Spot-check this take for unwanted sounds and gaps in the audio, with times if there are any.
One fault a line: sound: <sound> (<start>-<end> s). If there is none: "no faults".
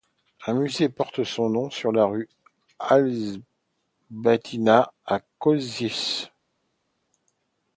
no faults